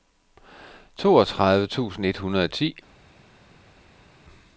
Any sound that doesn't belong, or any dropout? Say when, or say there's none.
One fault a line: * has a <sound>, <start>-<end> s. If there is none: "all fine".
all fine